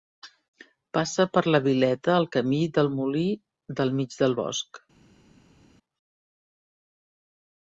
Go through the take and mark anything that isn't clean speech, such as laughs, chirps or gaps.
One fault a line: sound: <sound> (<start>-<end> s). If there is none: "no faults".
no faults